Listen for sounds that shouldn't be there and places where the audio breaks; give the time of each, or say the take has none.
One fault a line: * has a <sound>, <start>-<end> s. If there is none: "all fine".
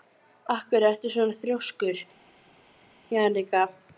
all fine